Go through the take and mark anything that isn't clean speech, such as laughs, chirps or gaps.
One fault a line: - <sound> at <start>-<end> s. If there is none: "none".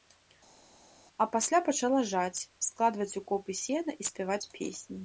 none